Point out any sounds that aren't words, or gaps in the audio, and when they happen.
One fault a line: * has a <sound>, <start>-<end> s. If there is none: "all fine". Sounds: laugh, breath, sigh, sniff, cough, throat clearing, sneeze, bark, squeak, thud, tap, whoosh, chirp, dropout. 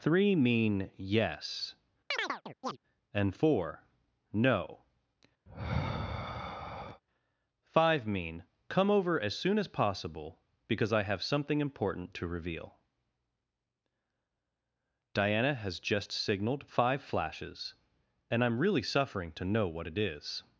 * has a chirp, 2.1-2.8 s
* has a sigh, 5.5-7.0 s